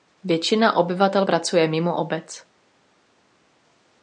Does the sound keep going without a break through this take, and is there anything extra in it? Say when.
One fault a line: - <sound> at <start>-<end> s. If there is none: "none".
none